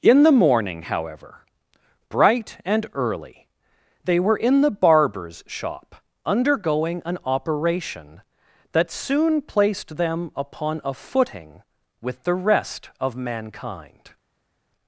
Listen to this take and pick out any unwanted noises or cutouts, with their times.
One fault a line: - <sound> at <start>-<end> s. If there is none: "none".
none